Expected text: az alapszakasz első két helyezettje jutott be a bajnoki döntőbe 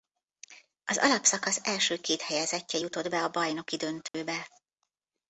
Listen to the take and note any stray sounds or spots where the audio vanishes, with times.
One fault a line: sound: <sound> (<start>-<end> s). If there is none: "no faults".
sound: dropout (4.1-4.1 s)